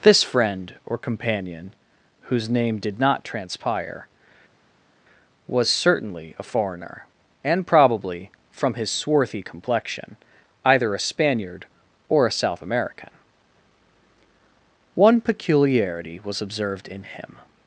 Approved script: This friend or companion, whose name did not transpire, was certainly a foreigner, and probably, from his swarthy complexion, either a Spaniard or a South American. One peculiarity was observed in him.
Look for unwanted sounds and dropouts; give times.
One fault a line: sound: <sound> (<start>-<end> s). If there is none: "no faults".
no faults